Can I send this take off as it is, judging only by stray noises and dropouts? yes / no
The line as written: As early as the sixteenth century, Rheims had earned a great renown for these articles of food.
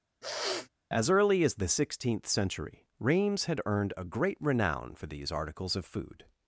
no